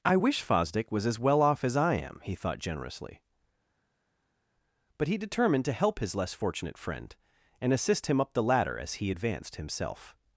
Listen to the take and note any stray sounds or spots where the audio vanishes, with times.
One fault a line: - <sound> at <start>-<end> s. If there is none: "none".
none